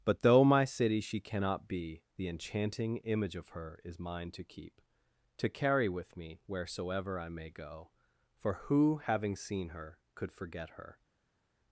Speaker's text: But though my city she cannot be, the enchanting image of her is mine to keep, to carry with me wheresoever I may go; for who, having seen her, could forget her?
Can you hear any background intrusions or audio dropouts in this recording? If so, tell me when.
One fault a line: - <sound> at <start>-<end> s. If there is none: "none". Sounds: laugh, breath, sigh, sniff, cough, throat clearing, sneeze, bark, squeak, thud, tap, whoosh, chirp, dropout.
none